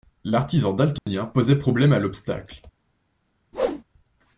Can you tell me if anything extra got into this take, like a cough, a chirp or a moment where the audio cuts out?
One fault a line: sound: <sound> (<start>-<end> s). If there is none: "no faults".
sound: dropout (1.0-1.1 s)
sound: whoosh (3.5-3.8 s)